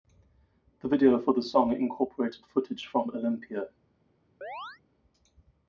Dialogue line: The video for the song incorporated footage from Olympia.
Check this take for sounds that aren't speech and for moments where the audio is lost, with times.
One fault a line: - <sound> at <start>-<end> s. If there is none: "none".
- chirp at 4.4-4.8 s